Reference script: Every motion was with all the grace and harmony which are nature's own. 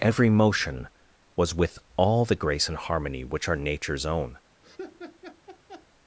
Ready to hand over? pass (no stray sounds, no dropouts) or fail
fail